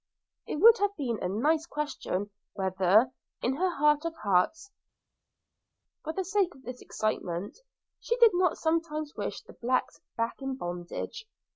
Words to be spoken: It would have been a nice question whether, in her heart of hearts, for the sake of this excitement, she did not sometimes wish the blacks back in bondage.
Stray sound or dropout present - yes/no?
no